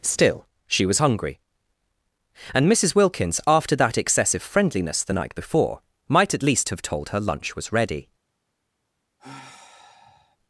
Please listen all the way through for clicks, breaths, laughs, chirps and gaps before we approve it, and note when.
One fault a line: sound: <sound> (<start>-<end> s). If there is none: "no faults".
sound: sigh (9.2-10.4 s)